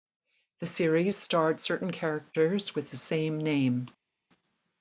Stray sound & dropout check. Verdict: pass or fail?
pass